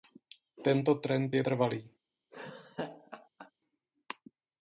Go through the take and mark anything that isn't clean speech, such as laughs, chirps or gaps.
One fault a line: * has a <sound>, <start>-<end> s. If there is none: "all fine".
* has a laugh, 2.3-3.5 s